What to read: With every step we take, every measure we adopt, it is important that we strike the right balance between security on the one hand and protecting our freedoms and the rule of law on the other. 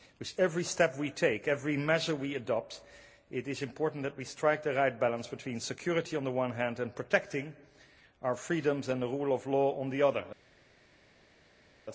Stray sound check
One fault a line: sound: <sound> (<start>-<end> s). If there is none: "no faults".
no faults